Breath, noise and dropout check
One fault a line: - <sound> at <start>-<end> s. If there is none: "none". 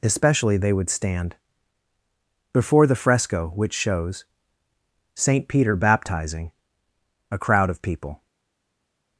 none